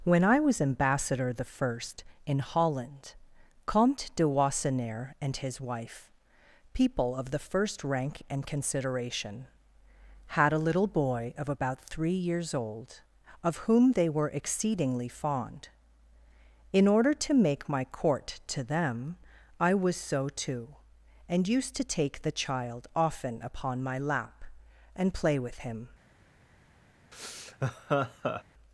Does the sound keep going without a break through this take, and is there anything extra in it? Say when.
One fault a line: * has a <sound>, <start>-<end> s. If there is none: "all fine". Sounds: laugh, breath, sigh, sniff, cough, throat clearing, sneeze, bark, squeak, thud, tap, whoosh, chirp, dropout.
* has a laugh, 27.1-28.4 s